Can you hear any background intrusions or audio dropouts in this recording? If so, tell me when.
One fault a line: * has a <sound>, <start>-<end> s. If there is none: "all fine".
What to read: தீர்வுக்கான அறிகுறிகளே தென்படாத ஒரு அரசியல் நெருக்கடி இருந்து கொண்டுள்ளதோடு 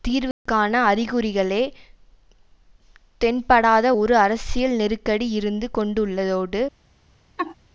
* has a dropout, 0.3-0.5 s
* has a laugh, 7.4-7.6 s